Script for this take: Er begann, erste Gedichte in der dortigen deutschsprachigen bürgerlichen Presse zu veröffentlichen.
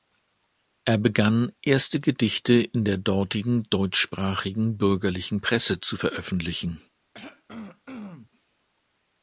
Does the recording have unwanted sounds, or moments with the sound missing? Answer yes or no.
yes